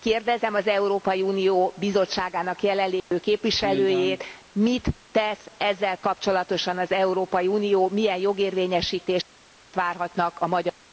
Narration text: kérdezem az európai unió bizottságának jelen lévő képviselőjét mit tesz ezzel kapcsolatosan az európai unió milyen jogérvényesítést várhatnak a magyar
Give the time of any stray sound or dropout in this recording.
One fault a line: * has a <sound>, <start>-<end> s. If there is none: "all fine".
* has a dropout, 3.0-3.1 s